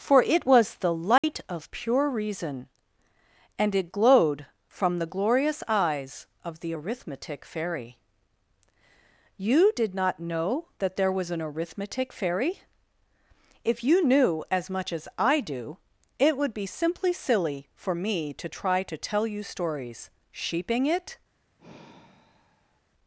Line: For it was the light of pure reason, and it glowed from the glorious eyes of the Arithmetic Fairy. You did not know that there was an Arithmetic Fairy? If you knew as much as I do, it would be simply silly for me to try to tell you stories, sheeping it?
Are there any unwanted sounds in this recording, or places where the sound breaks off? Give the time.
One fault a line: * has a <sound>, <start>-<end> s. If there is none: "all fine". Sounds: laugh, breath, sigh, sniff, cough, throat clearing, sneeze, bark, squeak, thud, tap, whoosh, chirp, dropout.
* has a dropout, 1.2-1.2 s
* has a sigh, 21.6-22.8 s